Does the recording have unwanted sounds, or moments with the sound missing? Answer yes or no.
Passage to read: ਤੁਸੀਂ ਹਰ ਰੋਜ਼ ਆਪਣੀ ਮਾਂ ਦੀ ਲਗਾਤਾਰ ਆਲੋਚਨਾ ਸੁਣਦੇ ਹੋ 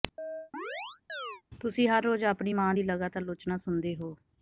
yes